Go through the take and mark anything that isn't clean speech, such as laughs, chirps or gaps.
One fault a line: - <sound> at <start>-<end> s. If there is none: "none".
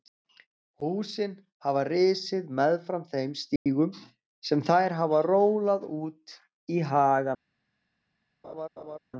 - dropout at 3.6-3.7 s
- laugh at 8.4-9.0 s